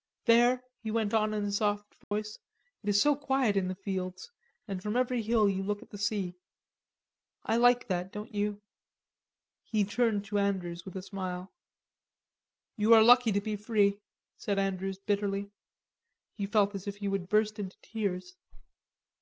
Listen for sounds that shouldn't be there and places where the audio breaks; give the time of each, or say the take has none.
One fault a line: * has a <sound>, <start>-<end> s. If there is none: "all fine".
* has a dropout, 2.0-2.1 s